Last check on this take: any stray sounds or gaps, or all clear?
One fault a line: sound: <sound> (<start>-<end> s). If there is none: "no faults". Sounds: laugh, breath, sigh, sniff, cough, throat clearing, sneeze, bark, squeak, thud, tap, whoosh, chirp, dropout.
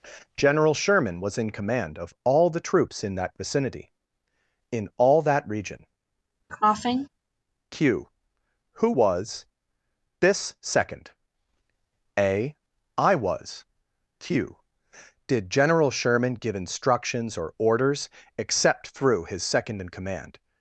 sound: cough (6.5-7.1 s)